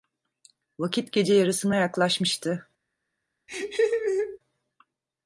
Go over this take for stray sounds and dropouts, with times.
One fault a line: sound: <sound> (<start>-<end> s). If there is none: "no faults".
sound: laugh (3.5-4.4 s)